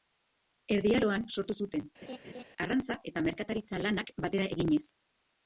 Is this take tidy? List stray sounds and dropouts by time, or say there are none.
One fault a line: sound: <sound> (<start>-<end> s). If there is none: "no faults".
sound: laugh (2.0-2.4 s)